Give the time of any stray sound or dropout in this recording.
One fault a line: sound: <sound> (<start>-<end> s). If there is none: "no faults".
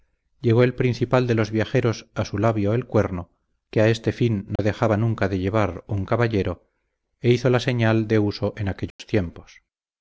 sound: dropout (4.6-4.6 s)
sound: dropout (8.9-9.0 s)